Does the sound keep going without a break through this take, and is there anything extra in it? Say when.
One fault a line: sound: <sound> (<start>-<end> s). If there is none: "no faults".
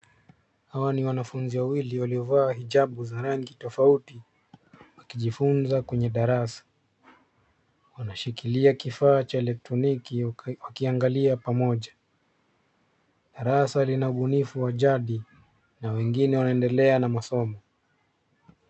no faults